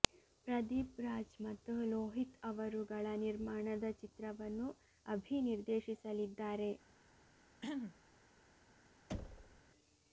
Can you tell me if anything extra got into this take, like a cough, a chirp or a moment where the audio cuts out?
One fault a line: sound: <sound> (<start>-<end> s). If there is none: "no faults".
sound: throat clearing (7.6-8.0 s)
sound: thud (9.1-9.6 s)